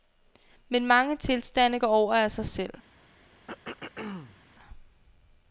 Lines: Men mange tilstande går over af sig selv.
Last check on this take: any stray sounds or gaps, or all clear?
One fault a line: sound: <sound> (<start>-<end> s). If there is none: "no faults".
sound: throat clearing (3.5-4.4 s)